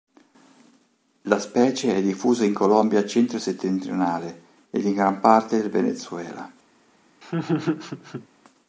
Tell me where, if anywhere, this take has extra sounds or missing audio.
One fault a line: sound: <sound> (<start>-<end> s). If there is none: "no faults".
sound: laugh (7.2-8.3 s)